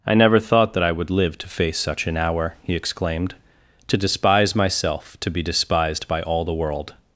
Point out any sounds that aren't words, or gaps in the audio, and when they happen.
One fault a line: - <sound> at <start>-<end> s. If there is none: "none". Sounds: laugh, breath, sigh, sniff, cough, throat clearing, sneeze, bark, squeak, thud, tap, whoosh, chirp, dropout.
none